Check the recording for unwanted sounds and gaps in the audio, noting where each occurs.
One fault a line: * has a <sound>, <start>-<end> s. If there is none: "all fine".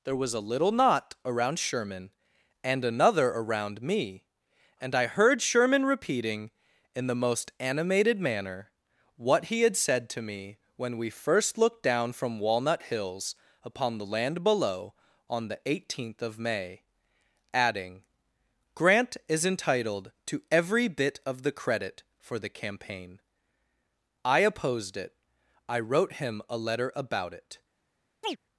* has a chirp, 28.2-28.4 s